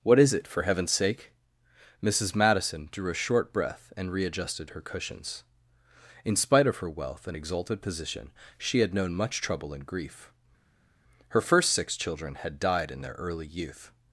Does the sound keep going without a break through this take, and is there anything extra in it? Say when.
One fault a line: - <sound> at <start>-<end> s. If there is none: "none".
none